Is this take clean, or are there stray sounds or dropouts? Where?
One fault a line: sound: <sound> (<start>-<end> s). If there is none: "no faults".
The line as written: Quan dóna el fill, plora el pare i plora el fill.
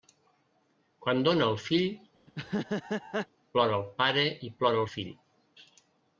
sound: laugh (2.3-3.3 s)